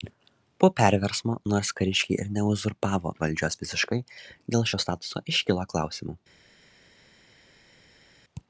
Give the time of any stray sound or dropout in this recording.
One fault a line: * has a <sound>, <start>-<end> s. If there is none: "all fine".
all fine